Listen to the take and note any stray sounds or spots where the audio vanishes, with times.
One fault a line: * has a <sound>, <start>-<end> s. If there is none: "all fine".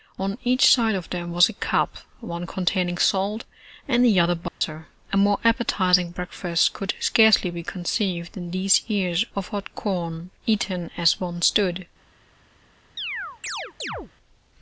* has a dropout, 4.5-4.6 s
* has a chirp, 13.0-14.1 s